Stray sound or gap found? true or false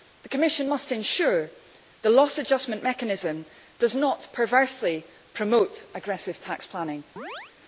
true